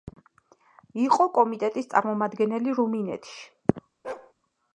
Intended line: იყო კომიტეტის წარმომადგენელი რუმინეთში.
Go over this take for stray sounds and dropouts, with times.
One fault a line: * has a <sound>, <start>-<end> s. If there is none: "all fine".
* has a bark, 4.0-4.3 s